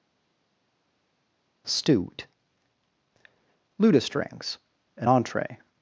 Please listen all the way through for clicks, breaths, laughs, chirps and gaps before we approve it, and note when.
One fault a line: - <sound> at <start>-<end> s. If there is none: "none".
none